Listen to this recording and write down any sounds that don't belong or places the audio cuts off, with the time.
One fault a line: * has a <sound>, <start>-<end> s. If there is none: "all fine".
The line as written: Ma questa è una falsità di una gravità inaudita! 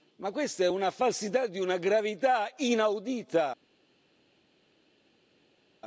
all fine